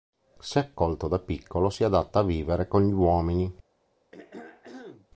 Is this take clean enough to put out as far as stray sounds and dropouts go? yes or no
no